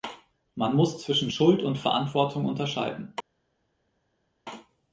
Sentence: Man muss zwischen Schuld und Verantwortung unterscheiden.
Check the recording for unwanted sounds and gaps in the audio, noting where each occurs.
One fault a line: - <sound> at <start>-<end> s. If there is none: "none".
none